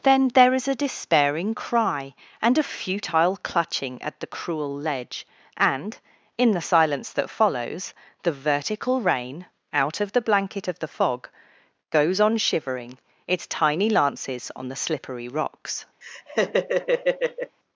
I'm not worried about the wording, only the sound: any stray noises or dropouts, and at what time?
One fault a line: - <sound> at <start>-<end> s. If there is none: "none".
- laugh at 16.0-17.6 s